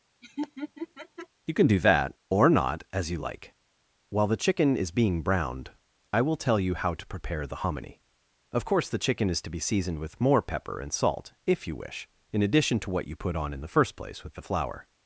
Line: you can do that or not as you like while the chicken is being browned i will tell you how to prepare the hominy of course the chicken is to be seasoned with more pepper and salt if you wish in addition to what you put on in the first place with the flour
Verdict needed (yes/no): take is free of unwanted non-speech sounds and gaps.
no